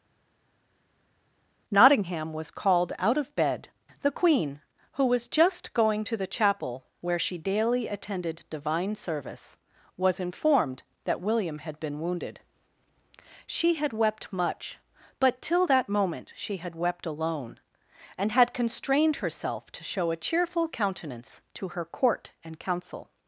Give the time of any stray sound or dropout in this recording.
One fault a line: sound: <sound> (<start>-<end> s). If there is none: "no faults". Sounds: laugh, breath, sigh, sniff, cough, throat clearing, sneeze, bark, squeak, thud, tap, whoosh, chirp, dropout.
no faults